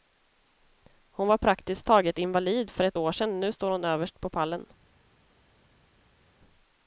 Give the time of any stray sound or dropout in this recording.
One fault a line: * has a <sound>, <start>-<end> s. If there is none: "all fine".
all fine